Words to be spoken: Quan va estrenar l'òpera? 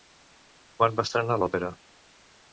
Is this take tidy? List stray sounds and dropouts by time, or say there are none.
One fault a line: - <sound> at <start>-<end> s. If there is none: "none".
none